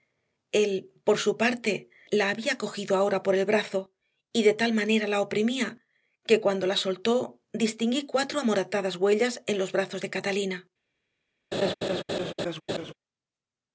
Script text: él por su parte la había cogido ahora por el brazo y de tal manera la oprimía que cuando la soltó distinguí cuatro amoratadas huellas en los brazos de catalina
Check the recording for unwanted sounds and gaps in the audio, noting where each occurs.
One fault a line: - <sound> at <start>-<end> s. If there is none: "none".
- laugh at 11.5-12.9 s